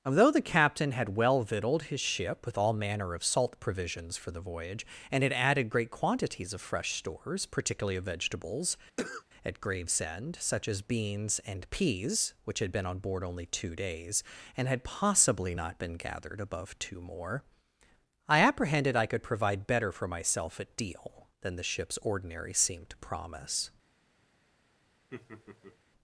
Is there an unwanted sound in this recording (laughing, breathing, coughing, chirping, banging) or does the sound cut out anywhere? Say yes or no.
yes